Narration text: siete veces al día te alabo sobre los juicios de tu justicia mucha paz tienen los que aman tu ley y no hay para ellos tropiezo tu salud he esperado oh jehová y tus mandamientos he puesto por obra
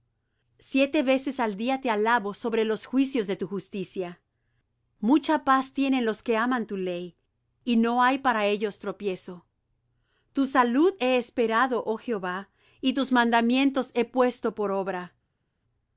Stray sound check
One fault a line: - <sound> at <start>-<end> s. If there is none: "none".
none